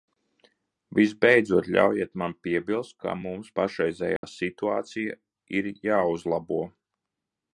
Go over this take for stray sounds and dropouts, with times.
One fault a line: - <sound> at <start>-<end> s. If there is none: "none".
- dropout at 4.2-4.2 s